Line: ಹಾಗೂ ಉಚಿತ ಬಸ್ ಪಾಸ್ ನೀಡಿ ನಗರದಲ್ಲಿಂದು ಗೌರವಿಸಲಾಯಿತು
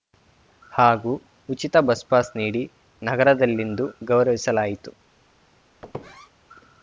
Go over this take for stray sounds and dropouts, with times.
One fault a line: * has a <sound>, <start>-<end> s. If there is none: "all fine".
* has a squeak, 5.8-6.3 s